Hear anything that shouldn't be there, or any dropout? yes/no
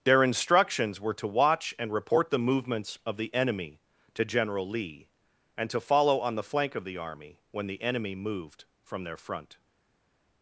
no